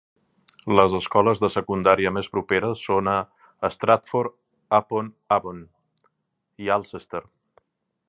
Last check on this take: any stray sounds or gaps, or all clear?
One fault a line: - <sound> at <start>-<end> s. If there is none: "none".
none